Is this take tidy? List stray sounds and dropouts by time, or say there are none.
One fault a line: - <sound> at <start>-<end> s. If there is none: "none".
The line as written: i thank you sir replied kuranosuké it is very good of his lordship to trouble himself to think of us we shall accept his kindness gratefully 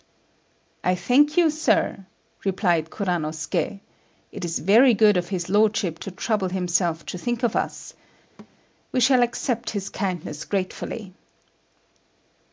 - thud at 8.4-8.6 s